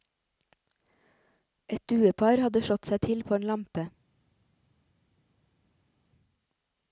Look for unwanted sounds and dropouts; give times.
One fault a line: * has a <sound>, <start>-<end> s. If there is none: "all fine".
all fine